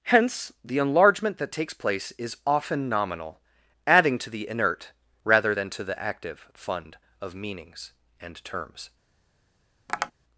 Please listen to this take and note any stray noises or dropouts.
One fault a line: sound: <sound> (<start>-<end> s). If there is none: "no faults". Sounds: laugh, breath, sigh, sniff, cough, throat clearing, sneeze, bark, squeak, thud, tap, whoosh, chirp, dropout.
sound: tap (9.9-10.1 s)